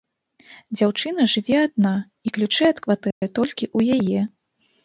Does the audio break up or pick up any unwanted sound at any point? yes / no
yes